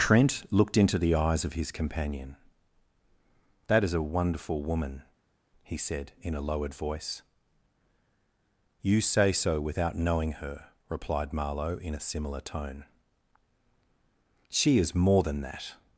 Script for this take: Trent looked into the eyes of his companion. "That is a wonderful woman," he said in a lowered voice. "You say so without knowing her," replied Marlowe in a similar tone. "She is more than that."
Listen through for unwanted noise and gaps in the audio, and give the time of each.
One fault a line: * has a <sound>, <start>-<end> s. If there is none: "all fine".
all fine